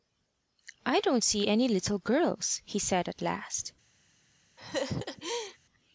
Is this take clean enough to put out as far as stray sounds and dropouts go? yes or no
no